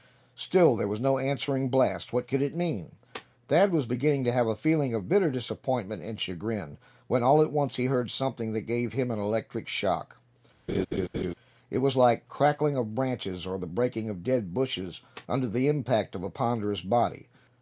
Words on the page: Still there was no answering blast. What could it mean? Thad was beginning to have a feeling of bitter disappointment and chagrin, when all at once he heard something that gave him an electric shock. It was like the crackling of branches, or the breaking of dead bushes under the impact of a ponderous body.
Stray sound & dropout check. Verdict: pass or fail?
fail